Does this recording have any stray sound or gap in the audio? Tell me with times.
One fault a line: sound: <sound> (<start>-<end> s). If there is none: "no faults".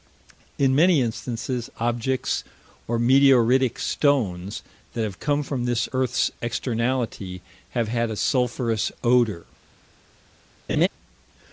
sound: laugh (10.7-10.9 s)